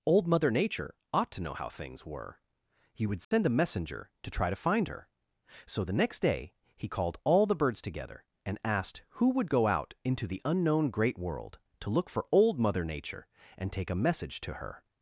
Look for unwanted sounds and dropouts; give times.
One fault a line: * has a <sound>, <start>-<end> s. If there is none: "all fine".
* has a dropout, 3.2-3.3 s